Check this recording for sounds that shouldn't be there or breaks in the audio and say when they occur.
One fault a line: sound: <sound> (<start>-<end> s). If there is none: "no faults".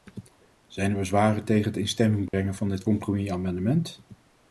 sound: dropout (2.3-2.3 s)